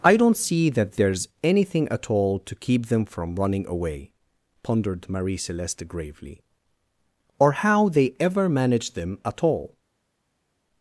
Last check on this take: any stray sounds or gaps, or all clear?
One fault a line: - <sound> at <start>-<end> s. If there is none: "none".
none